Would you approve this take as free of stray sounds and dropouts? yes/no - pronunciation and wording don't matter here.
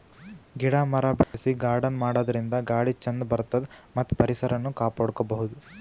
no